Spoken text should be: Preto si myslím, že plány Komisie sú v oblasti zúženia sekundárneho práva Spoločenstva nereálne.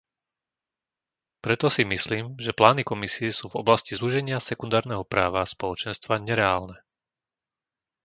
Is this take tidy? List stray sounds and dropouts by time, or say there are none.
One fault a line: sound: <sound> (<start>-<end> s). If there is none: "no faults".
no faults